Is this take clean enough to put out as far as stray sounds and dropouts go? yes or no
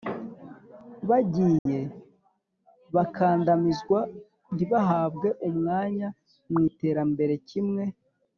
no